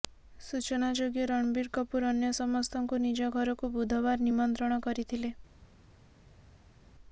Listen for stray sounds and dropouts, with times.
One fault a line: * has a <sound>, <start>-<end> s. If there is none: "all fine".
all fine